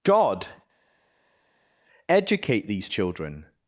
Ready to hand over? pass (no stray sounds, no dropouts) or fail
pass